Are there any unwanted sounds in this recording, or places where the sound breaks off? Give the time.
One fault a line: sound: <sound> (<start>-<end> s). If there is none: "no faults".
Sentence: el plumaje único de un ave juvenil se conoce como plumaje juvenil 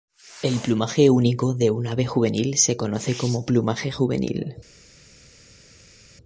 no faults